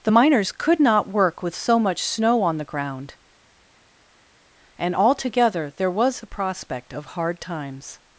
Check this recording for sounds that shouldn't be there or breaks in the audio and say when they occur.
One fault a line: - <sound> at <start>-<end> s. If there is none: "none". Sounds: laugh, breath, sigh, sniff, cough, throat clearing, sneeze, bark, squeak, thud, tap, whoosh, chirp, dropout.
none